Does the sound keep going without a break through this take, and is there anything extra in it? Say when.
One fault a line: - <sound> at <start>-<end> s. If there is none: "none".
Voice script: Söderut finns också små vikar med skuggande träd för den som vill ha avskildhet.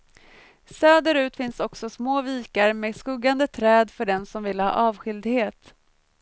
none